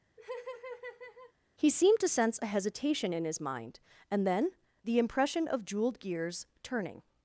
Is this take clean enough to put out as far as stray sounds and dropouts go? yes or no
no